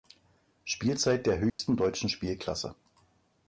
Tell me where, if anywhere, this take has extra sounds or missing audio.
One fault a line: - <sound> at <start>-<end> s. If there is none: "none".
- dropout at 1.5-1.6 s